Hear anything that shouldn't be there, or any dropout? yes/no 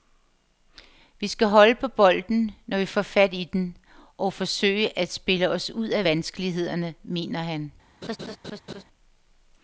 yes